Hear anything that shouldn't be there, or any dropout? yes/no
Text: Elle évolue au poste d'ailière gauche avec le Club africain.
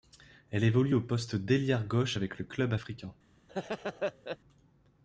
yes